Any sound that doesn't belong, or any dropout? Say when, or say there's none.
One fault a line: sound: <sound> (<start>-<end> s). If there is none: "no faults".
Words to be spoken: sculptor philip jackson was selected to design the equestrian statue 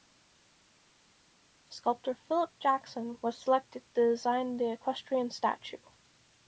no faults